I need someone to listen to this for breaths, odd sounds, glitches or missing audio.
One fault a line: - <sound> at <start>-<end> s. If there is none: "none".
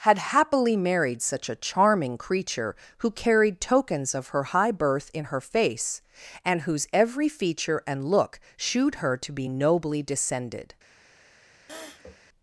- sniff at 11.7-12.2 s